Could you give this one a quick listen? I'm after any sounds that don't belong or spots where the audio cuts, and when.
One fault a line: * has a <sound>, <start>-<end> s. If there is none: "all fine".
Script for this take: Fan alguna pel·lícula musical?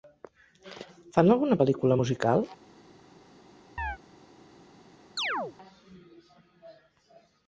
* has a chirp, 3.8-4.0 s
* has a chirp, 5.2-5.6 s